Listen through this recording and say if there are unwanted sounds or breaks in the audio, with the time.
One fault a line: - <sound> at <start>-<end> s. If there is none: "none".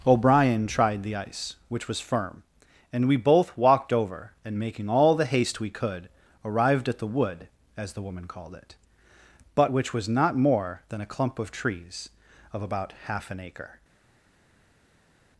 none